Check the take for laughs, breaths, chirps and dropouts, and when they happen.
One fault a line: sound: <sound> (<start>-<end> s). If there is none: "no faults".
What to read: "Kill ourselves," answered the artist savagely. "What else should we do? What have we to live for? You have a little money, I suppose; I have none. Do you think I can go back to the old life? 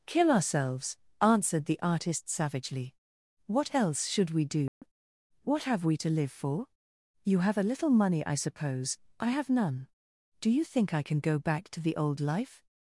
sound: dropout (4.7-4.8 s)